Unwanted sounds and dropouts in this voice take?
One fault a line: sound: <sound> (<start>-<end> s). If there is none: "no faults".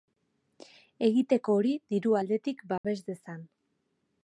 sound: dropout (2.8-2.8 s)